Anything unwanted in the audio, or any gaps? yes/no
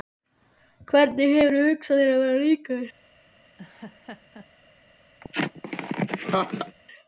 yes